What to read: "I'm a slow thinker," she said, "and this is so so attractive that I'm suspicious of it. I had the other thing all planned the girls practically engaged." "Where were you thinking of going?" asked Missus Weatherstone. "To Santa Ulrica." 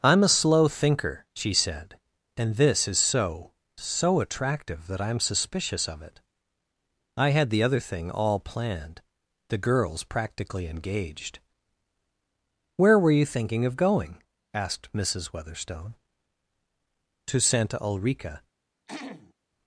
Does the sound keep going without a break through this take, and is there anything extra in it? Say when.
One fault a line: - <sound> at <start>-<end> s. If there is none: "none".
- throat clearing at 18.9-19.3 s